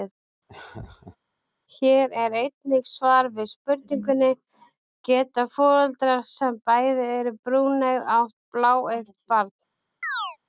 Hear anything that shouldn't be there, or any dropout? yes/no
yes